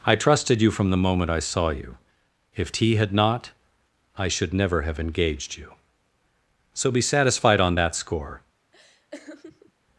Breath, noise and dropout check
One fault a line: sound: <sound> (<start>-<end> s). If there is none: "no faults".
sound: laugh (8.7-9.7 s)